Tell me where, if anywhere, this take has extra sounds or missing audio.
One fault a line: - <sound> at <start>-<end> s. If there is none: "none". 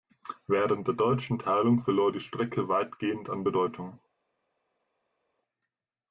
none